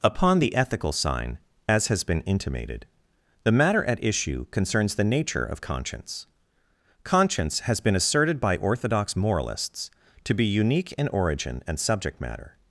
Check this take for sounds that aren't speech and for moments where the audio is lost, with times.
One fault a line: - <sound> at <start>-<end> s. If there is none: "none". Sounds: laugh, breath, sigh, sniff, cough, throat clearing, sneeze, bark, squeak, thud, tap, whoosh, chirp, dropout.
none